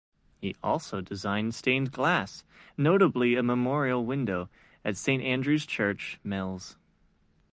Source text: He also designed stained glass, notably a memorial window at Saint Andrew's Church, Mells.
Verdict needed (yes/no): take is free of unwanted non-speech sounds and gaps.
yes